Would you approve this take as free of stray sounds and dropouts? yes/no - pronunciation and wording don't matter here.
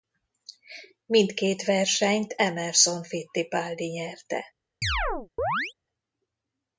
no